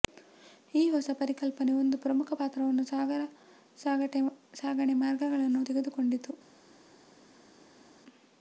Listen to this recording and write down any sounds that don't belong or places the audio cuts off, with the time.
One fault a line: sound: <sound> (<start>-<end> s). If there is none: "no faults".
no faults